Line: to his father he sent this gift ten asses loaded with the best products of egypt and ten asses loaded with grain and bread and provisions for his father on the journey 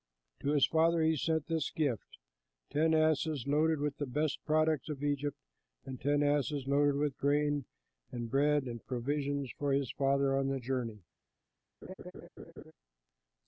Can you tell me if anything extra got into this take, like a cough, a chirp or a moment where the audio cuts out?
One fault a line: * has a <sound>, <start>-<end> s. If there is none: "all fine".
* has a laugh, 11.8-12.7 s